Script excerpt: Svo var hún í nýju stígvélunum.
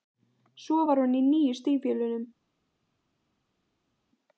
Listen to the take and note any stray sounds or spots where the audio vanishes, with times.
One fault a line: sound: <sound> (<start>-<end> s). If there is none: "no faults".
no faults